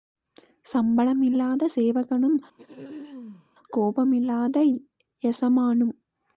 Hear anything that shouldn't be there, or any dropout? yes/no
yes